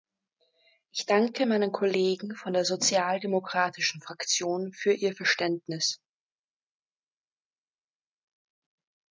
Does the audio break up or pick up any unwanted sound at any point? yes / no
no